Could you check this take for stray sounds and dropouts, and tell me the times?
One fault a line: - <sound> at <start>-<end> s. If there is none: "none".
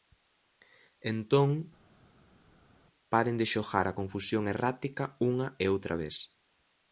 none